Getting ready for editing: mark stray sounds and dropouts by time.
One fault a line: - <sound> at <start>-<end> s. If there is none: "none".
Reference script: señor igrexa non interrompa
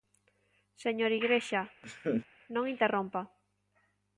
- laugh at 1.8-2.3 s